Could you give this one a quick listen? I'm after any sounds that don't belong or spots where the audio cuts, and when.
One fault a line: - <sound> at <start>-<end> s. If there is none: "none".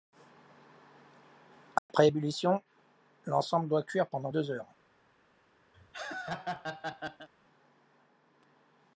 - dropout at 1.8-1.9 s
- laugh at 5.7-7.3 s